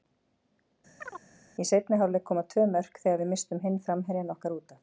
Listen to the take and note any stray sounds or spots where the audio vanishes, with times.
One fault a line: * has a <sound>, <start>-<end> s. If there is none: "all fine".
* has a chirp, 1.0-1.2 s